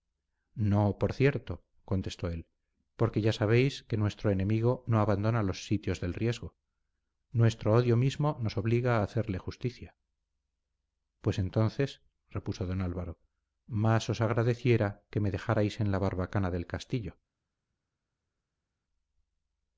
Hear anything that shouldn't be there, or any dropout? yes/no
no